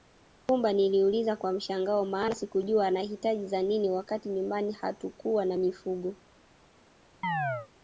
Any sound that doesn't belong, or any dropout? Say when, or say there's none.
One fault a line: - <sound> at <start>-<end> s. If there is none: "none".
- chirp at 7.2-7.7 s